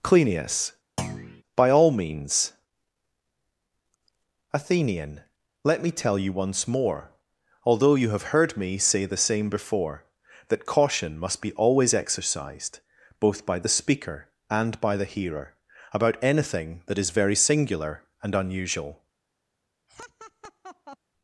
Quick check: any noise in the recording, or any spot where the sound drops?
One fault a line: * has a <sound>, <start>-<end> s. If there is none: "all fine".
* has a thud, 1.0-1.4 s
* has a laugh, 19.9-21.0 s